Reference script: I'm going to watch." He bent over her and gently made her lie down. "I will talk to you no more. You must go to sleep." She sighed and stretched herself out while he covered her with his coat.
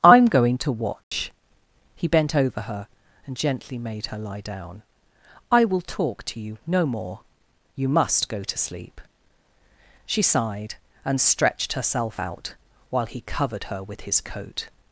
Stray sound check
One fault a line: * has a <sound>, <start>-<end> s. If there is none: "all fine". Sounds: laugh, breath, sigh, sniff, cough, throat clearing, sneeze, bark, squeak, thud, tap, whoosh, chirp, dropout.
* has a dropout, 1.0-1.1 s